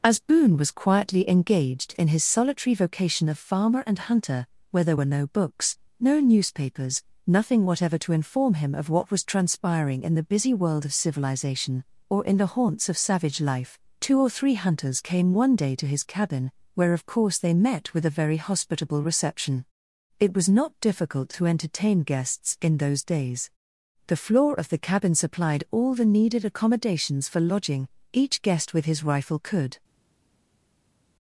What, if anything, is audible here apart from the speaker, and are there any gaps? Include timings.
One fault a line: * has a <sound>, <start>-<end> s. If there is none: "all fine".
all fine